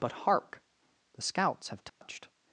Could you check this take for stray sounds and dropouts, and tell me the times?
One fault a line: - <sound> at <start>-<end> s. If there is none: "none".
- dropout at 1.9-2.0 s